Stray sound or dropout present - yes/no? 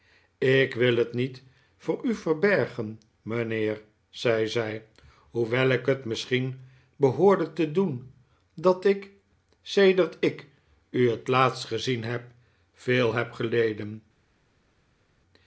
no